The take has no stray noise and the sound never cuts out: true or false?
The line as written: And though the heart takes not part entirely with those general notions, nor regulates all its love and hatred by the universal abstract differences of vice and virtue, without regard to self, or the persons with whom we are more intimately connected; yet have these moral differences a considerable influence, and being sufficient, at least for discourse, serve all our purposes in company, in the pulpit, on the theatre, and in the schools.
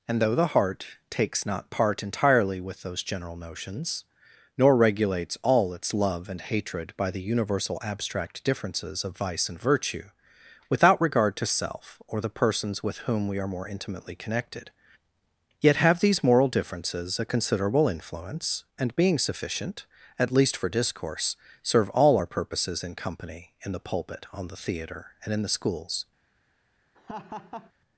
false